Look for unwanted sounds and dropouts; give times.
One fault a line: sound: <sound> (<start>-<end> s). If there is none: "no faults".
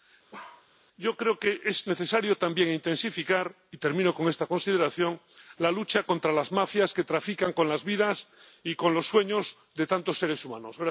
sound: bark (0.3-0.7 s)